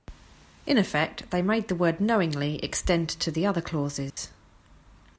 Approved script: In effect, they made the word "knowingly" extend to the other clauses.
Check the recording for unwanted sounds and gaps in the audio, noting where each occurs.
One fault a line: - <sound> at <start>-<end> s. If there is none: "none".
- dropout at 4.1-4.2 s